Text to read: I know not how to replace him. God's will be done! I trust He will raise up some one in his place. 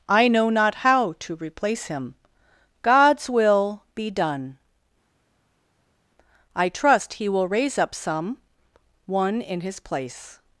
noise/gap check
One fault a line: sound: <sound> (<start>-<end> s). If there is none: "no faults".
no faults